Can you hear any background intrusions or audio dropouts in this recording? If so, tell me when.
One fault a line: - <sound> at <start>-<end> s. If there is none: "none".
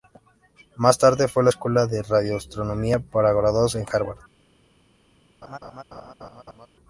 - laugh at 5.4-6.7 s